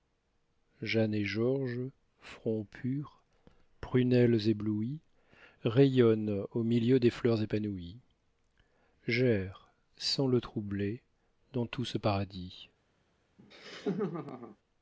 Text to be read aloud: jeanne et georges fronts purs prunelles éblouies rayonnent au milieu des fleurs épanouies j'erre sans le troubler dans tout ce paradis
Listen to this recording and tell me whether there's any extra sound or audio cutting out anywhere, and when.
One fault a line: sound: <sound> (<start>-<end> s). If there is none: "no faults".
sound: laugh (13.4-14.6 s)